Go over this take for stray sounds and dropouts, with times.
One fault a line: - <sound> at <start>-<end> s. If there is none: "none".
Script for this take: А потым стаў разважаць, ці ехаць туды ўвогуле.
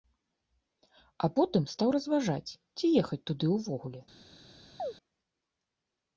- chirp at 4.8-4.9 s